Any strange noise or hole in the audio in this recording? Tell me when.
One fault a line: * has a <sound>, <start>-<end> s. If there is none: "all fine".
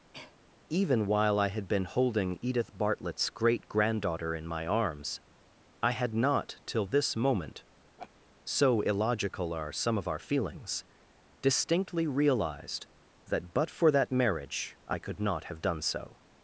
* has a cough, 0.1-0.4 s
* has a laugh, 8.0-8.1 s